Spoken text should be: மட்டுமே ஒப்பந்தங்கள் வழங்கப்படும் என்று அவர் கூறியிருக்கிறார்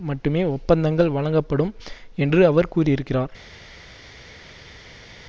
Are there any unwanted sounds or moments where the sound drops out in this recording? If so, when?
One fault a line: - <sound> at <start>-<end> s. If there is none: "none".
none